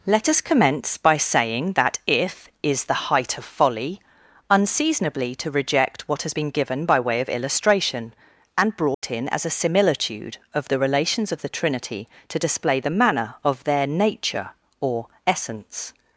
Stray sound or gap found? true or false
true